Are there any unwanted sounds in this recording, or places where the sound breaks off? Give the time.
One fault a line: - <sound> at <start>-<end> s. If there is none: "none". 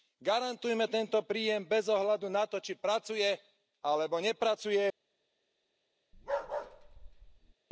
- bark at 6.1-7.5 s